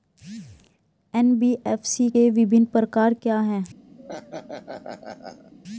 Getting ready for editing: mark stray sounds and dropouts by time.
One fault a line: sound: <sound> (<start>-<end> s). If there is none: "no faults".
sound: laugh (4.0-5.5 s)